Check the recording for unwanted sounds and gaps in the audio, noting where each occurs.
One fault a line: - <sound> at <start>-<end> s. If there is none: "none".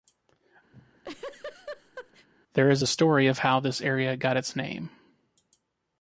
- laugh at 0.7-2.3 s